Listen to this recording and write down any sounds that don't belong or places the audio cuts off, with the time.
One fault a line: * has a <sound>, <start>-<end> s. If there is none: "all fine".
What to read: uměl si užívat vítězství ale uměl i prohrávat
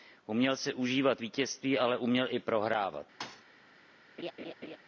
* has a thud, 3.2-3.4 s
* has a laugh, 4.2-4.8 s